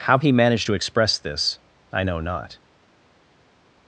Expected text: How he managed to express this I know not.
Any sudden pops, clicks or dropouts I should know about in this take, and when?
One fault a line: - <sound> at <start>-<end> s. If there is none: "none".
none